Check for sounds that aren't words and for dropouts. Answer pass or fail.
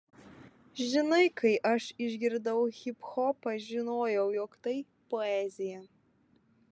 pass